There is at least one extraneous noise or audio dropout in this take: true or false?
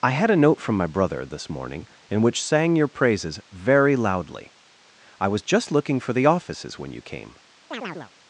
true